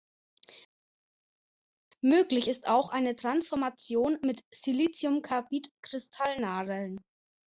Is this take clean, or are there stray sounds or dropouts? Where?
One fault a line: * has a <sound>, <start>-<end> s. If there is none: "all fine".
all fine